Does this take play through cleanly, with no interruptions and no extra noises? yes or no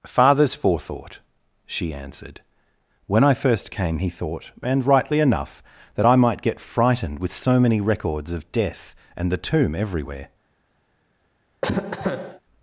no